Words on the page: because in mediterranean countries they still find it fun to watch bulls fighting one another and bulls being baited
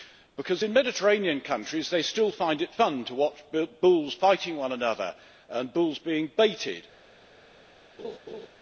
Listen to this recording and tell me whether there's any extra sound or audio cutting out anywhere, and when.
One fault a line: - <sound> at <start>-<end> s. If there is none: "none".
- laugh at 8.0-8.5 s